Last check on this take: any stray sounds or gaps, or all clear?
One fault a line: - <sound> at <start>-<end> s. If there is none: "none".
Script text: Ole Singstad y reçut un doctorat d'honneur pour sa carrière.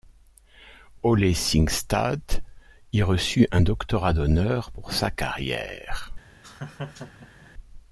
- laugh at 6.4-7.5 s